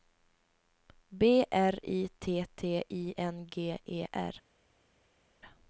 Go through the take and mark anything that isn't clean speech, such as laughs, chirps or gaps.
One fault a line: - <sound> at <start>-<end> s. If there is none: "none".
none